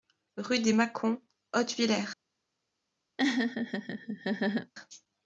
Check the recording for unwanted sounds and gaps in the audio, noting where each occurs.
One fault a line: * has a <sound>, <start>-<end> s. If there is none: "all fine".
* has a laugh, 3.2-4.7 s